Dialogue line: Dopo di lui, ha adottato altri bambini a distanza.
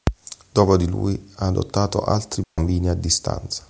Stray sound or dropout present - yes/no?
yes